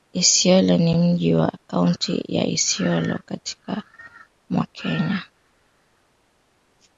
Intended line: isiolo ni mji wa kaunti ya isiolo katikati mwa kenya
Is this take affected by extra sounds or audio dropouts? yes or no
no